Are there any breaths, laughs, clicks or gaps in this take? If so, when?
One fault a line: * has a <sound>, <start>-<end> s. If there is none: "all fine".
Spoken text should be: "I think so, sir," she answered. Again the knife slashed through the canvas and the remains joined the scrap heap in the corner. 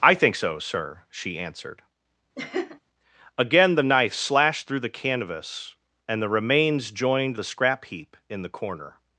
* has a laugh, 2.3-2.8 s